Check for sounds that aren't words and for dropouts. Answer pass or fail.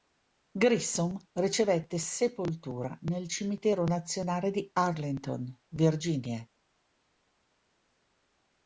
pass